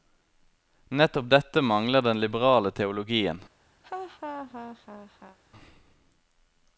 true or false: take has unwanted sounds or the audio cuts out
true